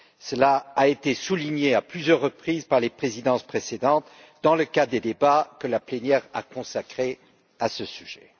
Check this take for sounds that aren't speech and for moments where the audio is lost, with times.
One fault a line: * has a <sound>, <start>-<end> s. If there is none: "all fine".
all fine